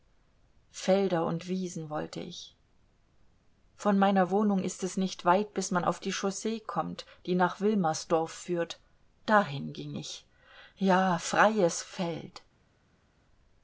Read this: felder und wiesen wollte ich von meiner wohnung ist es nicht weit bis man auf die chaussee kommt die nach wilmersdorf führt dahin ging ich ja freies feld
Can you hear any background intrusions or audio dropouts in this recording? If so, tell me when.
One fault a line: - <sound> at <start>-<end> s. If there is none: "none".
none